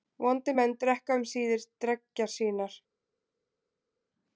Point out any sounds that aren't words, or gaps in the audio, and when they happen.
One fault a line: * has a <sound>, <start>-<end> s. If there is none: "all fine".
all fine